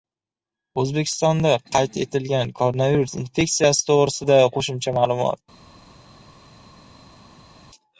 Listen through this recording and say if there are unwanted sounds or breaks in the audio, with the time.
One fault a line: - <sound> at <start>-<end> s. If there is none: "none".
none